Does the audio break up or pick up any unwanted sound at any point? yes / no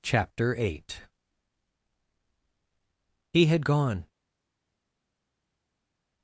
no